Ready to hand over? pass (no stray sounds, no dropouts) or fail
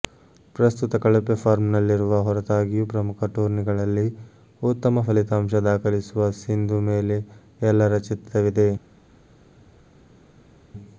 pass